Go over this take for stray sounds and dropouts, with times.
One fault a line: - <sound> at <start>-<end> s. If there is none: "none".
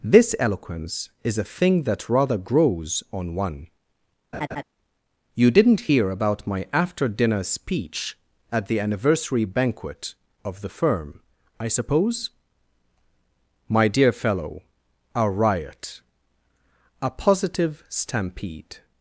- laugh at 4.3-4.6 s